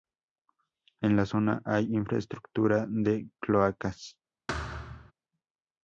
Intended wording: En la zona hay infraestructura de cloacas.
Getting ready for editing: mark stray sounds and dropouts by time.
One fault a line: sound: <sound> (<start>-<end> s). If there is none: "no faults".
sound: thud (4.5-5.1 s)